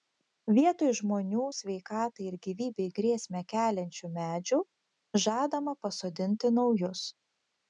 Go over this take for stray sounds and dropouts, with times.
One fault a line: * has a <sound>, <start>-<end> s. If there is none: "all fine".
all fine